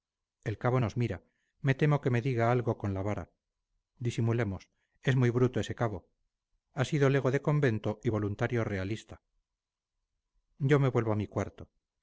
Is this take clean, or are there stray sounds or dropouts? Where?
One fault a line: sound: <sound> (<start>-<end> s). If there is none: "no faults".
no faults